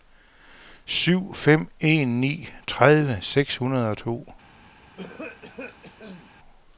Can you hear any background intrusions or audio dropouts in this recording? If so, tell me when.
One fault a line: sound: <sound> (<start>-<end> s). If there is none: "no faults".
sound: cough (4.9-6.3 s)